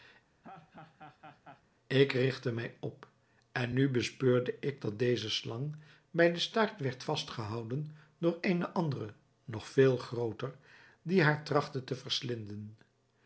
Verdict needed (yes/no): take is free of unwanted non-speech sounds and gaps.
no